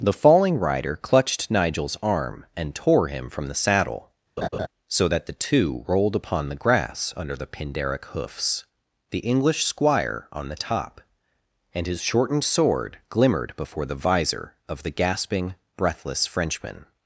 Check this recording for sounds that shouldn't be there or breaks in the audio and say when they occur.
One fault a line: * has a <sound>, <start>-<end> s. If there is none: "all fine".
* has a laugh, 4.4-4.7 s